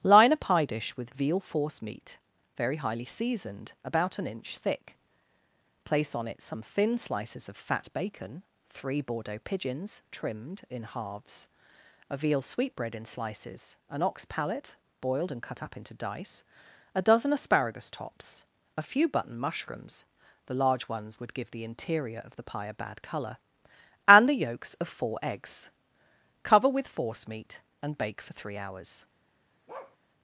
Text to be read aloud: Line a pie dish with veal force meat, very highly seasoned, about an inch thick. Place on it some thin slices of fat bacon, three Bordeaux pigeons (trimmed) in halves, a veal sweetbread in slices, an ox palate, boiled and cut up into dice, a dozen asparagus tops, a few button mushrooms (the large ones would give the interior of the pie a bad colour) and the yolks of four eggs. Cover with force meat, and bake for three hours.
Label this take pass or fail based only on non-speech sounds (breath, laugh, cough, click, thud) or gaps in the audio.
fail